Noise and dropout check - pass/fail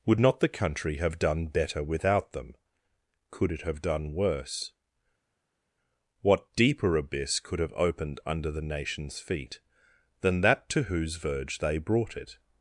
pass